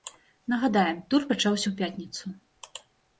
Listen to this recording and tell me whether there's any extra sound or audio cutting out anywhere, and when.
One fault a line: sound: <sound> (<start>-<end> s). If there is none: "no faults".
no faults